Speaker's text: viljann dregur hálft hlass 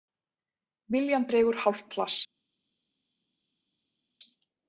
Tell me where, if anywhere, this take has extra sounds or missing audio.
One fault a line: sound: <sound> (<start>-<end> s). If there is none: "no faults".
no faults